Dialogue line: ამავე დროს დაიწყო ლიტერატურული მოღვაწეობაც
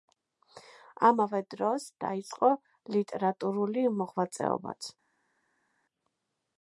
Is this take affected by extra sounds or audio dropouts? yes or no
no